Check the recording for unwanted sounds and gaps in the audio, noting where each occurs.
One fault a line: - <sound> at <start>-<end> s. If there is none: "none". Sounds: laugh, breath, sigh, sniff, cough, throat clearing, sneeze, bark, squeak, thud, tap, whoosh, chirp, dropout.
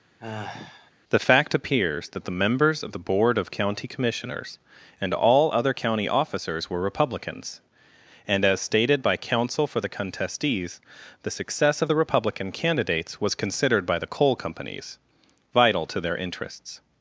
- sigh at 0.2-0.9 s